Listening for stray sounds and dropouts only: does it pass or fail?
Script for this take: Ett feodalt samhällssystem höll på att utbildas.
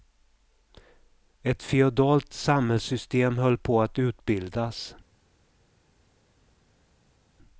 pass